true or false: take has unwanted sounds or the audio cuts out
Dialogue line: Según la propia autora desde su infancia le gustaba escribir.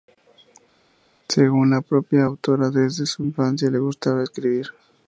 false